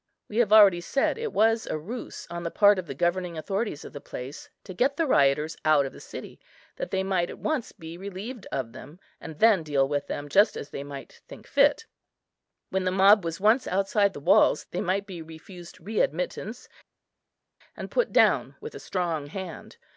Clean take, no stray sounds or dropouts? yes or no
yes